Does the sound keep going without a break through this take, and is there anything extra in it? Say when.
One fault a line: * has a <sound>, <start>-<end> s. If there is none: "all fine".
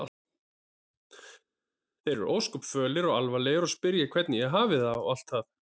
all fine